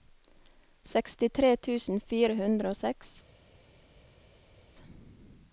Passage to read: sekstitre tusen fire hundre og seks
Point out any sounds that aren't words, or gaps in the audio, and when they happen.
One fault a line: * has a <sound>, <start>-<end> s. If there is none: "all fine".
all fine